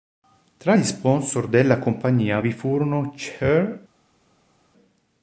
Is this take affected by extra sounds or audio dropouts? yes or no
no